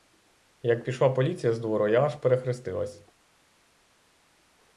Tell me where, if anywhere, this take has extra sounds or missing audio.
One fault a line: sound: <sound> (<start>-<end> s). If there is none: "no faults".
no faults